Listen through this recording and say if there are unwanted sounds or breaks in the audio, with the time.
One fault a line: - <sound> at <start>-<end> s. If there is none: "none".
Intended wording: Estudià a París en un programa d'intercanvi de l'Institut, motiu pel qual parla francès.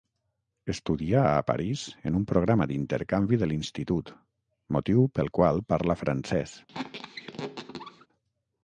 - squeak at 6.7-8.1 s